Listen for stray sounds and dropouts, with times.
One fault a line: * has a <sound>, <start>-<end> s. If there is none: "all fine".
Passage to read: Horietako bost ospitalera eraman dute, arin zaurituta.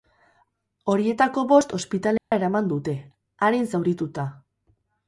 * has a dropout, 2.2-2.3 s